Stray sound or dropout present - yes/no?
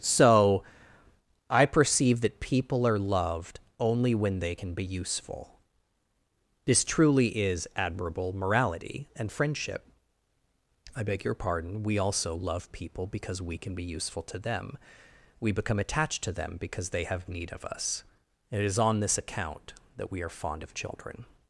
no